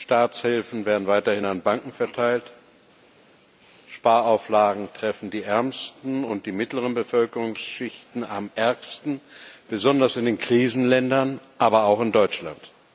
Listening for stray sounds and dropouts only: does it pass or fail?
pass